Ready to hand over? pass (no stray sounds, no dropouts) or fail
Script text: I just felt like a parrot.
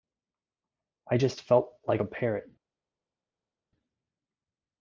pass